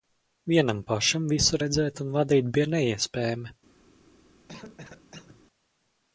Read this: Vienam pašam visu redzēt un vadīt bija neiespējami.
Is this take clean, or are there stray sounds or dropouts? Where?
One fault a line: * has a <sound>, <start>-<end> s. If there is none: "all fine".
* has a cough, 4.5-5.4 s